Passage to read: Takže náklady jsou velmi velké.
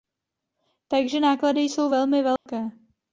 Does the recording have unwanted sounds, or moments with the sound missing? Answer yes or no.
yes